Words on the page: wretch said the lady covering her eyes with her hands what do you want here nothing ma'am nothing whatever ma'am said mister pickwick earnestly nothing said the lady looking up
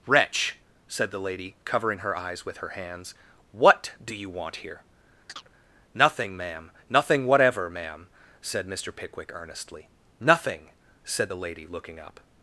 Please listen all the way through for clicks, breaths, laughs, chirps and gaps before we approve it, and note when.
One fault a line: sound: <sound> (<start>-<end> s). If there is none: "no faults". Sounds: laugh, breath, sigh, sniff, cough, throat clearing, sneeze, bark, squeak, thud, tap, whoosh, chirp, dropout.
sound: chirp (5.3-5.5 s)